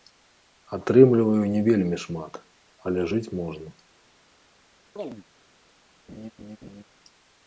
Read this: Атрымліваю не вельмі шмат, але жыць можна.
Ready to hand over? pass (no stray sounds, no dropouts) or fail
fail